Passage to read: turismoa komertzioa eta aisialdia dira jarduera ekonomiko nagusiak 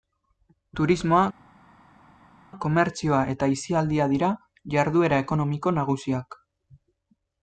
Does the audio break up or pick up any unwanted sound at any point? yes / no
no